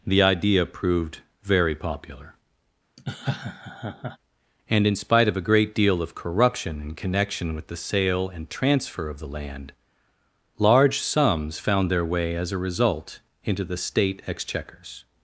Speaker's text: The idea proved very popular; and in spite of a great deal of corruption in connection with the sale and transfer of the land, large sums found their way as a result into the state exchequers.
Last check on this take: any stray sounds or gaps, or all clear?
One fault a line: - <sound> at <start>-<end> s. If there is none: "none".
- laugh at 3.0-4.2 s